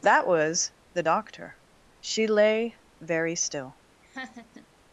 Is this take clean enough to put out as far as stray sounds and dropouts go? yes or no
no